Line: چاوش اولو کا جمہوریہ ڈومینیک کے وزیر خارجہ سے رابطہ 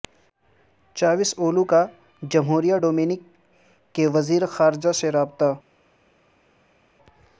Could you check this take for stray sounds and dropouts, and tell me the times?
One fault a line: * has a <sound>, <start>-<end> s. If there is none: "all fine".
all fine